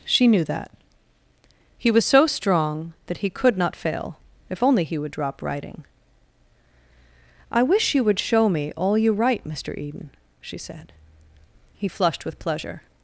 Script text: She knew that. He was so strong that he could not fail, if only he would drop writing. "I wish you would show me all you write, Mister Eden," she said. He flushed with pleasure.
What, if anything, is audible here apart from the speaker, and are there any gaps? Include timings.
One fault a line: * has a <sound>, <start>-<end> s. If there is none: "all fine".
all fine